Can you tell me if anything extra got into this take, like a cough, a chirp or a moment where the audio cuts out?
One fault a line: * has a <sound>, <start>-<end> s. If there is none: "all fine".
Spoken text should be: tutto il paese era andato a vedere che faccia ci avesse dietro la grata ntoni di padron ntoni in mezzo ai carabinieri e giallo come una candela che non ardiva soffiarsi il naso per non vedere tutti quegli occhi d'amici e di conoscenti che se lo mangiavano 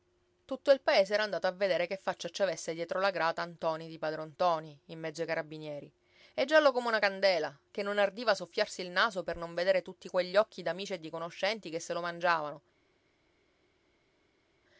all fine